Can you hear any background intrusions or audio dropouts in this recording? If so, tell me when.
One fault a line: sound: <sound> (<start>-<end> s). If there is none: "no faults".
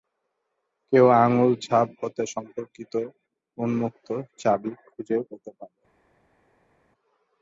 no faults